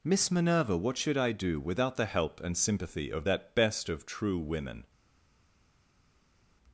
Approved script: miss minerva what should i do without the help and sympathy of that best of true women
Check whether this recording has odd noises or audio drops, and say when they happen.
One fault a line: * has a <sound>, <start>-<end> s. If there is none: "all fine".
all fine